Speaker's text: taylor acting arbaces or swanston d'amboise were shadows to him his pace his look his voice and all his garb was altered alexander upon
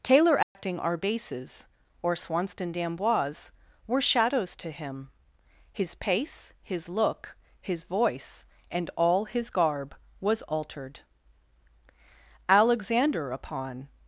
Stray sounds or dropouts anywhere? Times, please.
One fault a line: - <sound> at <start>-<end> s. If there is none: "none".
- dropout at 0.4-0.6 s